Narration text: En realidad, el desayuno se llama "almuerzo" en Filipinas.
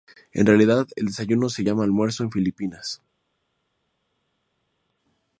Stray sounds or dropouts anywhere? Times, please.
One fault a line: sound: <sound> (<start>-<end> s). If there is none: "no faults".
no faults